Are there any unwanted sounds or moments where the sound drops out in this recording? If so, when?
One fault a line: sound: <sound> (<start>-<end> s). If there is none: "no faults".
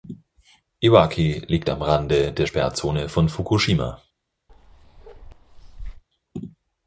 sound: bark (4.5-6.0 s)